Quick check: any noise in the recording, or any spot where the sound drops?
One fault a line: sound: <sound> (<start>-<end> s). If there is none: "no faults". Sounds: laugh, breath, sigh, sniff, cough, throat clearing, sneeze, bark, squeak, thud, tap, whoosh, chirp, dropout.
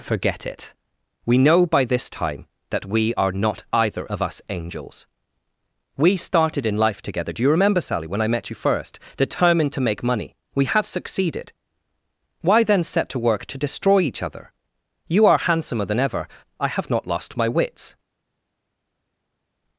no faults